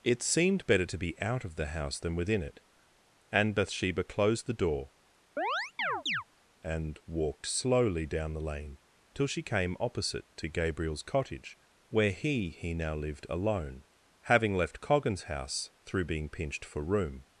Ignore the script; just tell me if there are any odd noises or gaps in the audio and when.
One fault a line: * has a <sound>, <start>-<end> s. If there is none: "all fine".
* has a chirp, 5.4-6.2 s